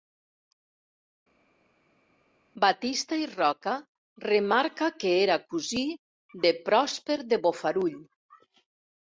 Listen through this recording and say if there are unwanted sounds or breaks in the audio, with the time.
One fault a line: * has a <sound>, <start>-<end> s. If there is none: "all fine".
all fine